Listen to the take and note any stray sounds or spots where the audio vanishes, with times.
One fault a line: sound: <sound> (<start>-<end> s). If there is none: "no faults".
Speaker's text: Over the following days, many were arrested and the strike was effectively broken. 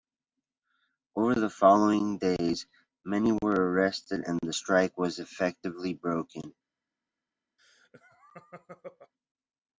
sound: laugh (7.6-9.1 s)